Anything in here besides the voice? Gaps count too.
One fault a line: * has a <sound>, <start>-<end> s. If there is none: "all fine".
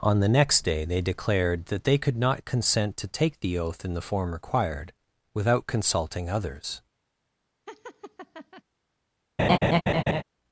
* has a laugh, 7.7-8.6 s
* has a laugh, 9.4-10.2 s